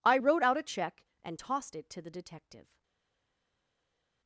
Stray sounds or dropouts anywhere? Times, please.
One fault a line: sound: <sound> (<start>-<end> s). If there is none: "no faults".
no faults